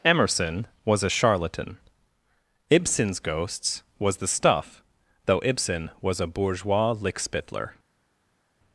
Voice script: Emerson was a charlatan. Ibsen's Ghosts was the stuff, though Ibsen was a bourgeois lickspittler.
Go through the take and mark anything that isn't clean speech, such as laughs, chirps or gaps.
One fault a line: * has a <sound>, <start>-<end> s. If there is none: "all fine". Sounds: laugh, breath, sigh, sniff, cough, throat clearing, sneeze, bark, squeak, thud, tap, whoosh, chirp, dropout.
all fine